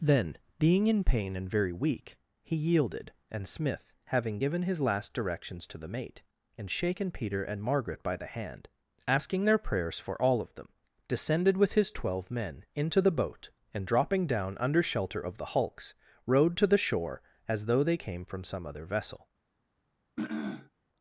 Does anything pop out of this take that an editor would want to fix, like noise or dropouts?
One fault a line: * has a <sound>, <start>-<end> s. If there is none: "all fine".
* has a throat clearing, 20.2-20.7 s